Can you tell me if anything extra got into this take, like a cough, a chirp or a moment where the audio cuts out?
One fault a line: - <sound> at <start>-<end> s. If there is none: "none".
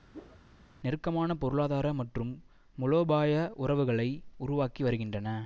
- whoosh at 0.1-0.4 s